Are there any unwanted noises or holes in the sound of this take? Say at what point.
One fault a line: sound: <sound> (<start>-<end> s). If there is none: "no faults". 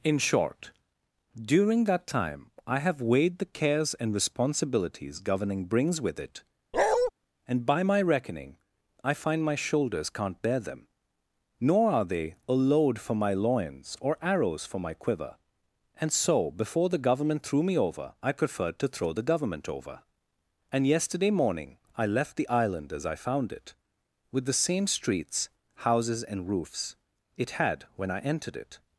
sound: bark (6.7-7.1 s)